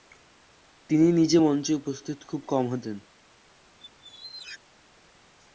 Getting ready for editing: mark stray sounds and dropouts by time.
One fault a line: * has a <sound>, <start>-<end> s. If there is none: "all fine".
* has a squeak, 3.8-4.6 s